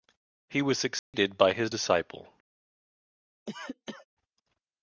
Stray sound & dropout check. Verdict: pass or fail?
fail